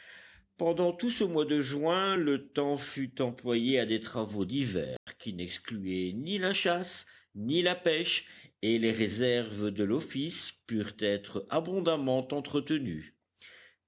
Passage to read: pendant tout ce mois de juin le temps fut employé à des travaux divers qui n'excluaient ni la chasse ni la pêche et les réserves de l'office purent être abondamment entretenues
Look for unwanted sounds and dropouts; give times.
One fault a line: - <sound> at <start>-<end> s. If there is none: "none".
- dropout at 5.0-5.1 s